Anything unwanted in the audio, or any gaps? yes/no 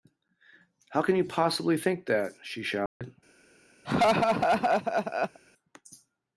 yes